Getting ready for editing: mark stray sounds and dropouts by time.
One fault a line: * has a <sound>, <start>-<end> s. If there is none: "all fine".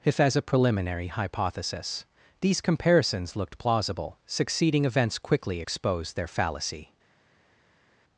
all fine